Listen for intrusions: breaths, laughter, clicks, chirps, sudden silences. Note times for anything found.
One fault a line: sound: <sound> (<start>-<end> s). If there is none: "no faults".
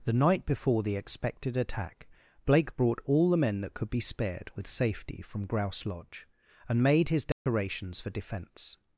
sound: dropout (7.3-7.5 s)